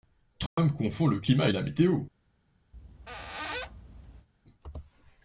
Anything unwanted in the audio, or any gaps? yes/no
yes